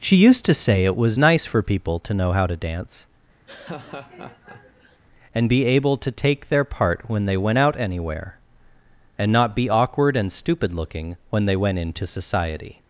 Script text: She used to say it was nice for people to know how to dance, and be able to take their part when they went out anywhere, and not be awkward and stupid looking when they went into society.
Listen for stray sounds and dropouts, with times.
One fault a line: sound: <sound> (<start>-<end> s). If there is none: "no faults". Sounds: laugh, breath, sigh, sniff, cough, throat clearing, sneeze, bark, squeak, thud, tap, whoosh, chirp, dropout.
sound: laugh (3.5-5.0 s)